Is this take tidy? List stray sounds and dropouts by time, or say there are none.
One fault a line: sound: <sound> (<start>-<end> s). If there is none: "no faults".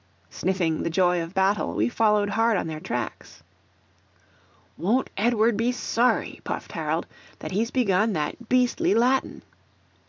no faults